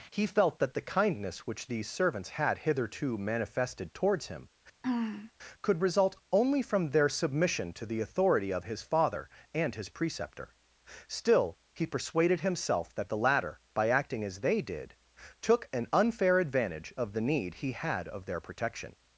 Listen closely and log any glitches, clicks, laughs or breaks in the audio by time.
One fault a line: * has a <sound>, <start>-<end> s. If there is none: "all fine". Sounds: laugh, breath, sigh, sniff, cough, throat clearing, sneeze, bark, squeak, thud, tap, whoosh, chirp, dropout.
* has a throat clearing, 4.8-5.3 s